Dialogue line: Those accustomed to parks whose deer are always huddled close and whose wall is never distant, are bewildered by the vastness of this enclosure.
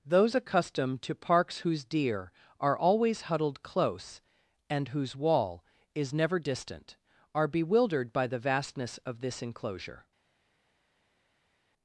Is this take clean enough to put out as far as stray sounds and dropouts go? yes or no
yes